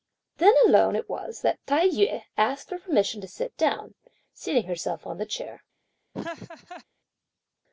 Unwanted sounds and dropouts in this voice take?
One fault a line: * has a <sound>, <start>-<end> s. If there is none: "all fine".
* has a laugh, 6.1-6.8 s